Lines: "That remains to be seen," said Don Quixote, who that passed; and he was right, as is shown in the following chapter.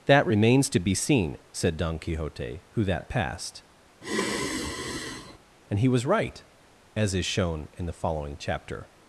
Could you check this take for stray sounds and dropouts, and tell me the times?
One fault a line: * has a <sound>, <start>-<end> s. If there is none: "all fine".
* has a sigh, 4.0-5.4 s